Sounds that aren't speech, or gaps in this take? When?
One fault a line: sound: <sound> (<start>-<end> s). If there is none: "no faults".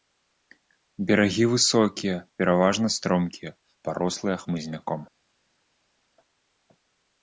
no faults